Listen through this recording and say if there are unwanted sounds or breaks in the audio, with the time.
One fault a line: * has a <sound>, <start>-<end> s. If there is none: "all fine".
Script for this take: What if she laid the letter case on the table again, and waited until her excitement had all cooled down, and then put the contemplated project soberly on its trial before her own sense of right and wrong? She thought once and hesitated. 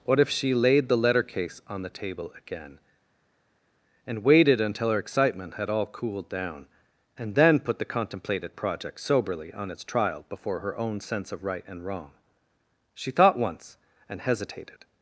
all fine